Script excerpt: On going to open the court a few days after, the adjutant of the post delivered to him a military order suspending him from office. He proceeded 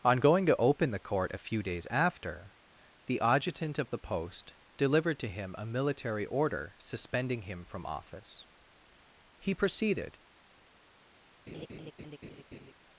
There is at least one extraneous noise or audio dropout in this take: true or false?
true